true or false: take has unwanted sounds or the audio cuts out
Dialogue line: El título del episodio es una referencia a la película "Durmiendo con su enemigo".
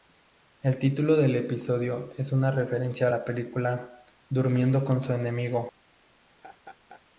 true